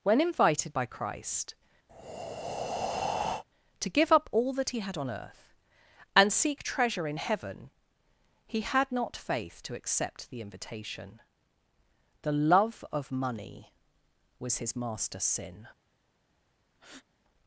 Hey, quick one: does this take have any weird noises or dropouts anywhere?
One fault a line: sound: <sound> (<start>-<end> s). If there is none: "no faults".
sound: breath (1.9-3.4 s)
sound: breath (16.7-17.1 s)